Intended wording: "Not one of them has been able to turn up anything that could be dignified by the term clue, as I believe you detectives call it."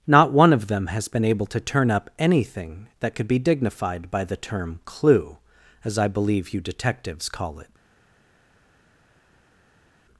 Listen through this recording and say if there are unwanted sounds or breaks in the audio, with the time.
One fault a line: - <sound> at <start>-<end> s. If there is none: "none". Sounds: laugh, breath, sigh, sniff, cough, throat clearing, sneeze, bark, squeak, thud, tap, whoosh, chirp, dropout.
none